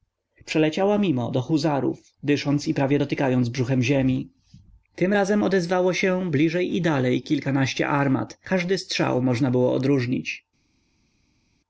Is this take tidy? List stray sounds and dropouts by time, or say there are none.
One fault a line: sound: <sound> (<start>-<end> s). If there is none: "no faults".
no faults